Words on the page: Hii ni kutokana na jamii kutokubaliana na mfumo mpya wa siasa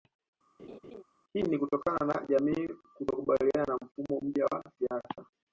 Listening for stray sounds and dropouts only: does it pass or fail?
fail